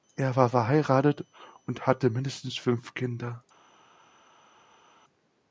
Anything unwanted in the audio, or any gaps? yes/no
no